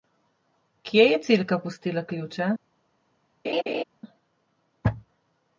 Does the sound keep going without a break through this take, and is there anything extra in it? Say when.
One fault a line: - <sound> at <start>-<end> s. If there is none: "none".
- laugh at 3.4-3.8 s